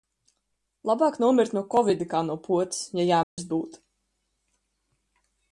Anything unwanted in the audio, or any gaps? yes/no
yes